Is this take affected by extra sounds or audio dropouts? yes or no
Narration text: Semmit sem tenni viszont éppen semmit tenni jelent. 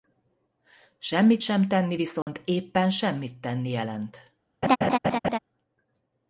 yes